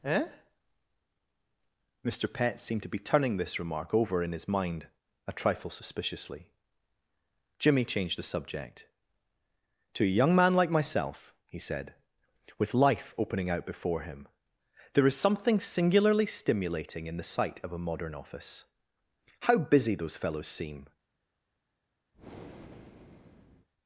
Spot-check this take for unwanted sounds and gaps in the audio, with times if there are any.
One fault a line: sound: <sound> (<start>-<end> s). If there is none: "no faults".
sound: breath (22.1-23.7 s)